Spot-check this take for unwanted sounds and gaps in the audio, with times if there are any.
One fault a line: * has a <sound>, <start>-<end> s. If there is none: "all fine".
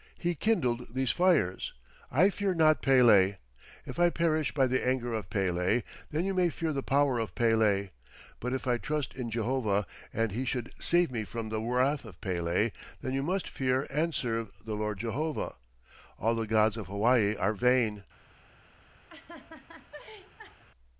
* has a laugh, 19.1-20.6 s